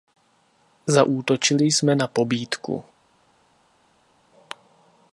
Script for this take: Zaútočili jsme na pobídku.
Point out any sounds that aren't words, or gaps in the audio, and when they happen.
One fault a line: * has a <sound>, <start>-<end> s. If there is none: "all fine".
all fine